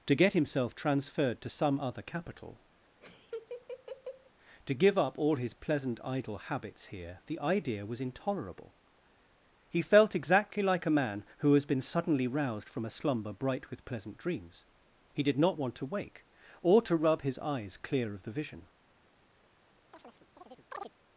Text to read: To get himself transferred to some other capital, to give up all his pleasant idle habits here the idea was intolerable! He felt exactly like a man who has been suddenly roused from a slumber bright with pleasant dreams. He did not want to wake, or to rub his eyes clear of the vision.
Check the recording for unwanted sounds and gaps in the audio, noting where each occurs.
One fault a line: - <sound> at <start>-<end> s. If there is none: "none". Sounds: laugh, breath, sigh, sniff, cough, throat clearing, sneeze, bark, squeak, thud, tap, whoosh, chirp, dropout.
- laugh at 3.0-4.3 s
- chirp at 19.9-20.9 s